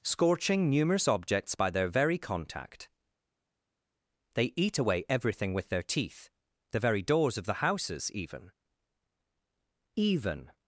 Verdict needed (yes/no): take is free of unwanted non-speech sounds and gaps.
yes